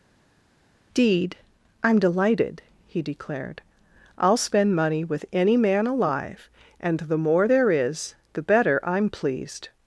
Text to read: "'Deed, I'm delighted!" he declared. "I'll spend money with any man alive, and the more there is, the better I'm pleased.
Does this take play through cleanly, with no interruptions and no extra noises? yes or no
yes